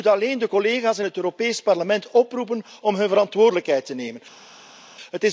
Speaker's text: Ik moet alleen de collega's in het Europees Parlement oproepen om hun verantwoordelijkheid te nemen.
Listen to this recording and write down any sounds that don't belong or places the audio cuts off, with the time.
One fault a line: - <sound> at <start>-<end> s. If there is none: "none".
none